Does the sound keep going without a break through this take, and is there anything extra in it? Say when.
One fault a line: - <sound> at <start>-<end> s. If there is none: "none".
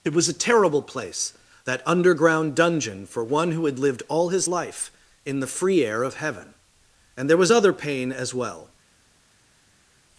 none